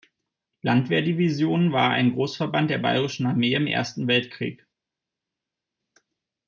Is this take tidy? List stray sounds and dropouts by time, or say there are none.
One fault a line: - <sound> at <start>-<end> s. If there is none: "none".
none